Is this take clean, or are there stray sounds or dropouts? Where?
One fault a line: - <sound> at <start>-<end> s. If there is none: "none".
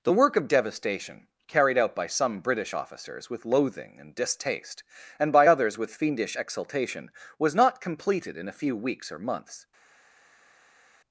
none